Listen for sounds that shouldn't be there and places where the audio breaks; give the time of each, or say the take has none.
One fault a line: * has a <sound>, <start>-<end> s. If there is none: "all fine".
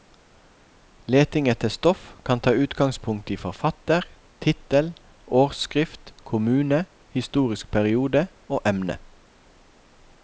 all fine